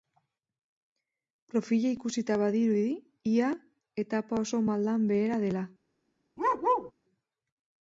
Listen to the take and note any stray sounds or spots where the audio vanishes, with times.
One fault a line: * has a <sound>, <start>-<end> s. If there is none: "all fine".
* has a bark, 6.4-6.9 s